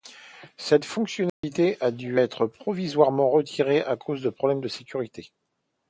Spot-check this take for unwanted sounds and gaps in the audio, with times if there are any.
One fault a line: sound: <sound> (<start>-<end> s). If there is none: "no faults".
sound: dropout (1.3-1.4 s)